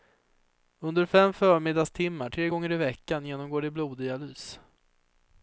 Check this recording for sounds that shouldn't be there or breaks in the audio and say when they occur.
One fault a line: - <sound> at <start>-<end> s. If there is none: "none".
none